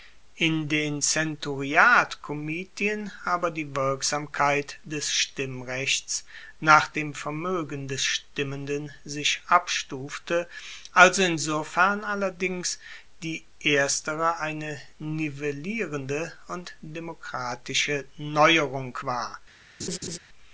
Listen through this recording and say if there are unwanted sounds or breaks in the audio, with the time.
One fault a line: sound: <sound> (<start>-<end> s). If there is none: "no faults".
sound: laugh (19.8-20.2 s)